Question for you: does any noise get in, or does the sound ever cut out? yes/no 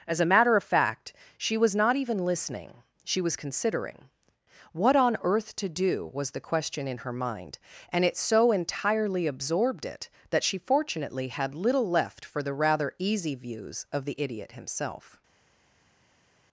no